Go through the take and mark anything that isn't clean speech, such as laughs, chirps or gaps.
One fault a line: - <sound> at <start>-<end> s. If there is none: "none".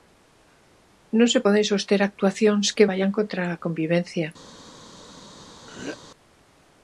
- throat clearing at 5.7-6.0 s